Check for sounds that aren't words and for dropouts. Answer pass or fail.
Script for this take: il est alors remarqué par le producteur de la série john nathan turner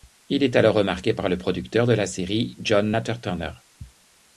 pass